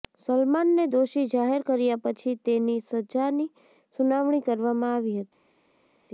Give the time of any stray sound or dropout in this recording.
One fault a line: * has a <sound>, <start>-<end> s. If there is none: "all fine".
all fine